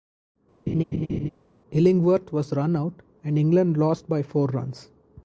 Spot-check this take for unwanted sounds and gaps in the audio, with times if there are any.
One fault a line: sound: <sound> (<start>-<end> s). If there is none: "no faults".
sound: laugh (0.7-1.3 s)